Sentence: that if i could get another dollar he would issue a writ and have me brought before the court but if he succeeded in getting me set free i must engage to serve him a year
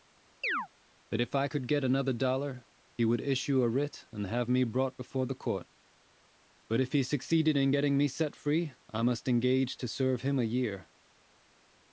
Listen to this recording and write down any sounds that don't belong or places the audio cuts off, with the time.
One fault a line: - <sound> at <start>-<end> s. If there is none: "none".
- chirp at 0.4-0.7 s